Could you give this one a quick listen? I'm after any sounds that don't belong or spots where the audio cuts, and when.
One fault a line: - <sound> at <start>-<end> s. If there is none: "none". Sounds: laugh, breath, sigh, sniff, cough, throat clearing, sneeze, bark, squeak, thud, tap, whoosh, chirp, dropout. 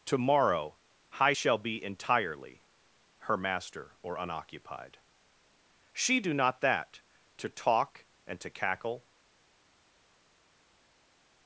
none